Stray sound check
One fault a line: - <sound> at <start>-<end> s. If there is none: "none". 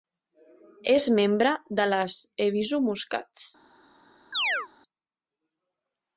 - chirp at 4.3-4.7 s